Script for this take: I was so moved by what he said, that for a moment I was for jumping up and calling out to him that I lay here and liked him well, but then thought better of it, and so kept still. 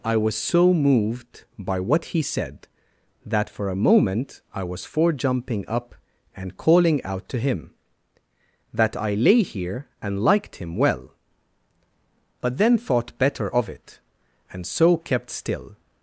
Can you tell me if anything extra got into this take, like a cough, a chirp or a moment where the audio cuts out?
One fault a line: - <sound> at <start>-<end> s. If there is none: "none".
none